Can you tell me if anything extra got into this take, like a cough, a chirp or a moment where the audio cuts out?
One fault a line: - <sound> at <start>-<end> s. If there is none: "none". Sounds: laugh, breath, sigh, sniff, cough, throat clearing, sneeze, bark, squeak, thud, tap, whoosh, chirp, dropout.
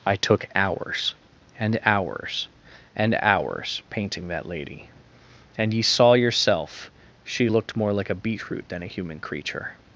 none